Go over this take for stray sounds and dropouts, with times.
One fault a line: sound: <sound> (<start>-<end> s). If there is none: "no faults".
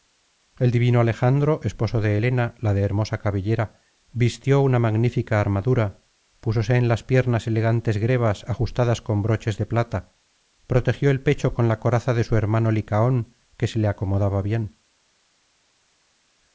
no faults